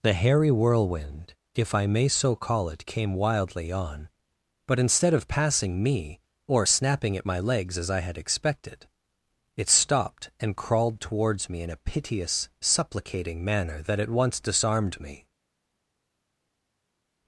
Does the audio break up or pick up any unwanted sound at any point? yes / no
no